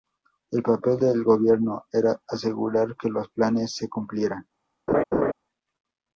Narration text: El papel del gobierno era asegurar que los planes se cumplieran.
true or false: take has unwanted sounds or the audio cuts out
true